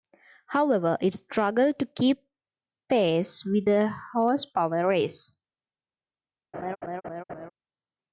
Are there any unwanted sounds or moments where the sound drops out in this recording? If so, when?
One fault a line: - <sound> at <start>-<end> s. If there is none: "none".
- laugh at 6.5-7.5 s